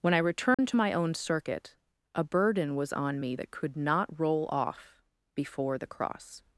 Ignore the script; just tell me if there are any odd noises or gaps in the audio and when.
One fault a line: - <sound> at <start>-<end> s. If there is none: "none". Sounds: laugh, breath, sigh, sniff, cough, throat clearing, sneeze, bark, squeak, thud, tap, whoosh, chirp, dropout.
- dropout at 0.5-0.6 s